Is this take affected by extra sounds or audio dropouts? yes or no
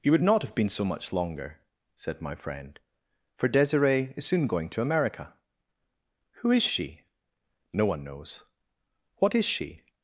no